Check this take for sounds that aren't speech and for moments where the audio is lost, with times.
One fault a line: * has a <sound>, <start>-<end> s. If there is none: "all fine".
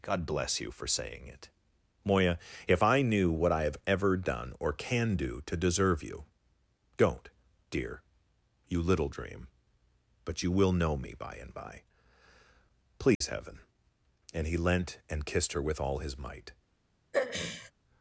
* has a dropout, 13.1-13.2 s
* has a throat clearing, 17.1-17.7 s